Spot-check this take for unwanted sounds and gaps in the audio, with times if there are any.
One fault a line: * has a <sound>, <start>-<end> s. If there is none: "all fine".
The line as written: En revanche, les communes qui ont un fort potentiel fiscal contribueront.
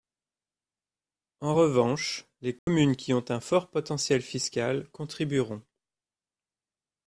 * has a dropout, 2.6-2.7 s